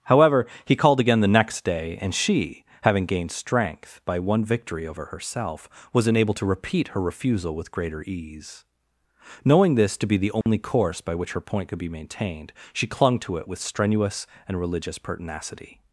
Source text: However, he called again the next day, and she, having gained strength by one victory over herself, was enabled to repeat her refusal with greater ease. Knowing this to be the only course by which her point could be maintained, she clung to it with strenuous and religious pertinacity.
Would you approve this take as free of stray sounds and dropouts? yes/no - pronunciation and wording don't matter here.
no